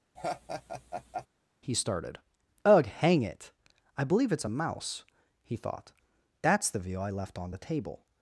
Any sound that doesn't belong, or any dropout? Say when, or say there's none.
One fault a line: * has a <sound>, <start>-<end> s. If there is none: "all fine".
* has a laugh, 0.2-1.3 s